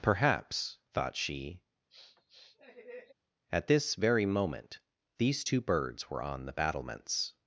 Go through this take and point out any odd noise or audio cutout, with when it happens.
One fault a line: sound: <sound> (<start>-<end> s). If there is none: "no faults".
sound: sniff (1.9-3.1 s)